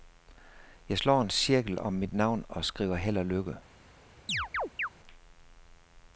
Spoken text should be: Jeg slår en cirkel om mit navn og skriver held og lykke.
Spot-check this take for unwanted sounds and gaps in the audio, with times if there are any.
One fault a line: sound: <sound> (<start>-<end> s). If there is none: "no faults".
sound: chirp (4.3-4.9 s)